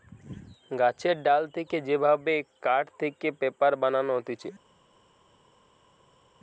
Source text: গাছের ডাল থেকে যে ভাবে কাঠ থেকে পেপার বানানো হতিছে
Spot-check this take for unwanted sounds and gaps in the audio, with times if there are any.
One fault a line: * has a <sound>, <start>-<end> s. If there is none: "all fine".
all fine